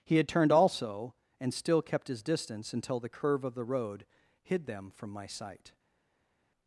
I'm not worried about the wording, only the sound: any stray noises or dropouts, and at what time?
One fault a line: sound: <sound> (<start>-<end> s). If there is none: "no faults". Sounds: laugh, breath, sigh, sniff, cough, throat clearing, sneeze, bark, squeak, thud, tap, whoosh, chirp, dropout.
no faults